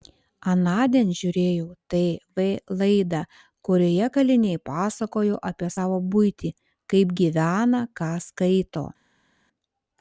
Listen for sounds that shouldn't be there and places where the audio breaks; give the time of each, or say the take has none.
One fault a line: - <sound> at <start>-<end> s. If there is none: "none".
none